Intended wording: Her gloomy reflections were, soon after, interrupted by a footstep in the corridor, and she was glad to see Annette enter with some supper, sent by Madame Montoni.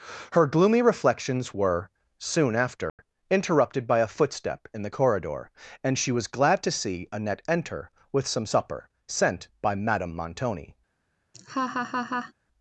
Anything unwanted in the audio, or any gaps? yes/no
yes